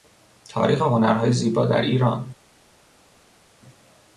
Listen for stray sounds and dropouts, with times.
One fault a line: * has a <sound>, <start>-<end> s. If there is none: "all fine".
all fine